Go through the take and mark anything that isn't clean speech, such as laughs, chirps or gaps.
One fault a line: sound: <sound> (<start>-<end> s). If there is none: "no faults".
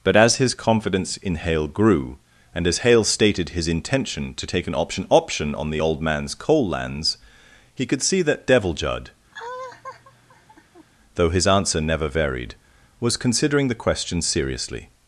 sound: laugh (9.3-10.9 s)